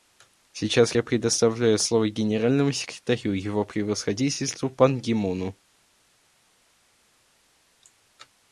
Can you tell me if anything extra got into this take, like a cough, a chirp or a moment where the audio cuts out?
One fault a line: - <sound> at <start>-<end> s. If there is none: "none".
none